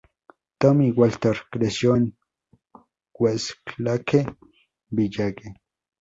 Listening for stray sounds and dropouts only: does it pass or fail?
pass